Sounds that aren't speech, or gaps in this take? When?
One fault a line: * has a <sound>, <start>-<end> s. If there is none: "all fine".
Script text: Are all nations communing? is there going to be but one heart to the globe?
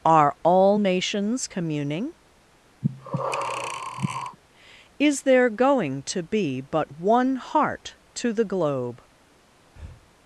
* has a breath, 2.8-4.4 s
* has a breath, 9.7-10.1 s